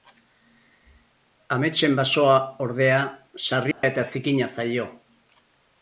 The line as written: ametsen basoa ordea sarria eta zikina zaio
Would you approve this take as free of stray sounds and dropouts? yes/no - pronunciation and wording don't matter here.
no